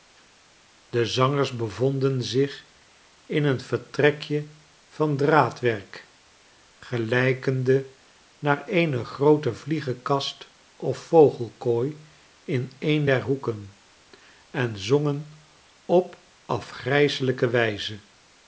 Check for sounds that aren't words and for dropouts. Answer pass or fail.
pass